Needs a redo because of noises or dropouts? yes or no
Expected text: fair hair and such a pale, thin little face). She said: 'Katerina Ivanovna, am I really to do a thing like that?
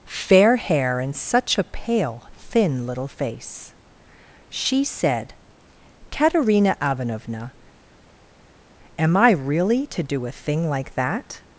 no